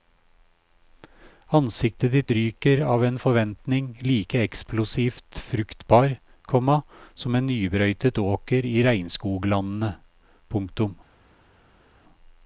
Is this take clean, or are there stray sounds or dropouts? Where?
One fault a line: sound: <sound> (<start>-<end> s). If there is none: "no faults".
no faults